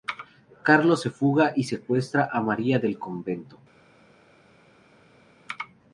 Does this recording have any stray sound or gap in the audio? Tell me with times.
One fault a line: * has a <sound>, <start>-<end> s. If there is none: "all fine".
all fine